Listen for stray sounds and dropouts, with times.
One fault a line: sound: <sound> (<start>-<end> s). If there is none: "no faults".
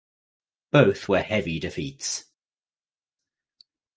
no faults